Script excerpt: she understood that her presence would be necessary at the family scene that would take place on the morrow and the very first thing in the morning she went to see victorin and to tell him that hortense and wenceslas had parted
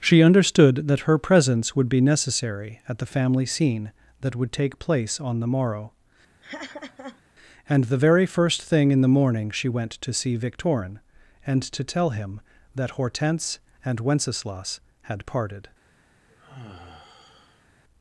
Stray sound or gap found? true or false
true